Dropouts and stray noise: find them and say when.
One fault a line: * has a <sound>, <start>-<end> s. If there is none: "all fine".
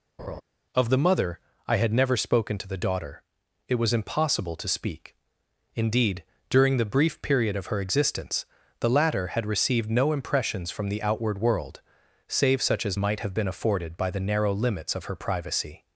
* has a laugh, 0.2-0.4 s